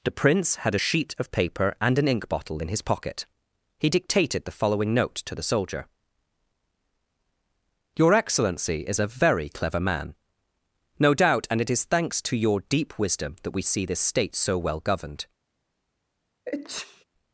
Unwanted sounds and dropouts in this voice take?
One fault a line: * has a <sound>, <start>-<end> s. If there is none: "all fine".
* has a sneeze, 16.5-17.0 s